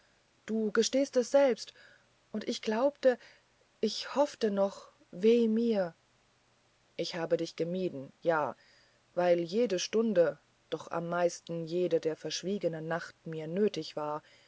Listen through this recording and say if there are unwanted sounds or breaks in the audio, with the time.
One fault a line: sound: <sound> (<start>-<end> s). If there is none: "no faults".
no faults